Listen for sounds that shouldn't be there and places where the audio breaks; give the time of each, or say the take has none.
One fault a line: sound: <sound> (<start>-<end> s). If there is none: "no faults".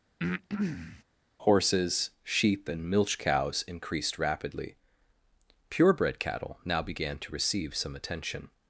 sound: breath (0.2-1.0 s)